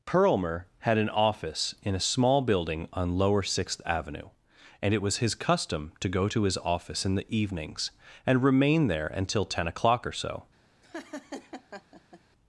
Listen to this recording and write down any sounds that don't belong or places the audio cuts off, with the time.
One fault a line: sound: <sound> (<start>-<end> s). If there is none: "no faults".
sound: laugh (10.8-12.2 s)